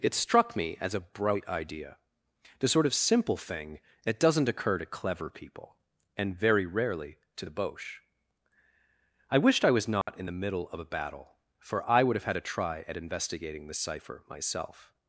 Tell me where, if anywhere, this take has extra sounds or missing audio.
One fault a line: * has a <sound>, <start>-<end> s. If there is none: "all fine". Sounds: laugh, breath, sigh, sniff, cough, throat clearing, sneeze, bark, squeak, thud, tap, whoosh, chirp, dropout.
* has a dropout, 10.0-10.1 s